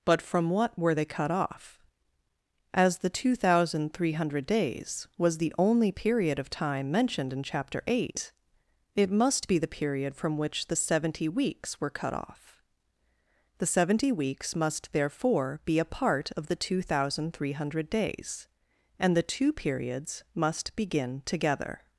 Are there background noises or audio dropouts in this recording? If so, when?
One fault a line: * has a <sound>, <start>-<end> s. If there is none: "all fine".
all fine